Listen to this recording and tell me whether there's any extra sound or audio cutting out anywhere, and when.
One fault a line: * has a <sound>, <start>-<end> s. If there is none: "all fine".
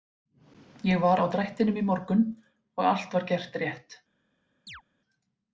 * has a chirp, 4.7-4.8 s